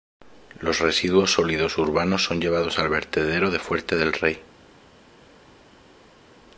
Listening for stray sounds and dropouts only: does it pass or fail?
pass